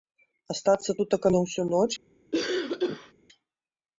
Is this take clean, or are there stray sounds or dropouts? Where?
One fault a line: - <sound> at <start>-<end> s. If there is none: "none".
- cough at 2.3-3.1 s